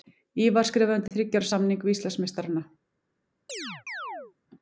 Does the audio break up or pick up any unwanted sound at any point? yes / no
yes